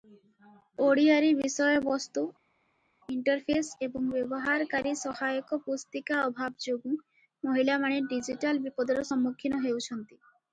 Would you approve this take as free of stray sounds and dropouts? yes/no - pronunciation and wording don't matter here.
yes